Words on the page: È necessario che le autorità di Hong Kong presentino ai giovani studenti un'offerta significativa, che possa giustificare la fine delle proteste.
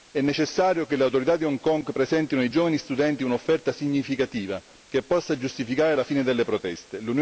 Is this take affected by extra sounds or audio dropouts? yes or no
no